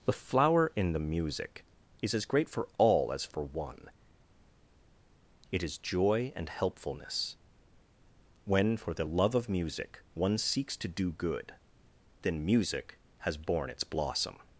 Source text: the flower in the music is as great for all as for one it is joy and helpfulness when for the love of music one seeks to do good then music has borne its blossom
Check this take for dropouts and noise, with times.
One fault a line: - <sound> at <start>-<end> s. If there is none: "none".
none